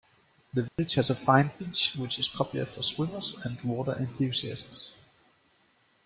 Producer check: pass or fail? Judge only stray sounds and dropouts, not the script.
fail